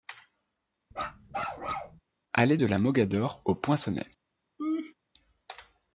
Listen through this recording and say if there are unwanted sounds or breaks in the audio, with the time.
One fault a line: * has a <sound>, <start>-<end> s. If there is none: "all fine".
* has a bark, 0.9-2.0 s
* has a laugh, 4.6-4.9 s